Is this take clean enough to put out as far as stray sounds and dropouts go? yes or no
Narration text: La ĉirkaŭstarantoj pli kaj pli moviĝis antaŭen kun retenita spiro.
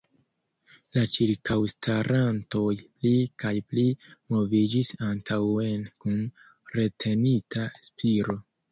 yes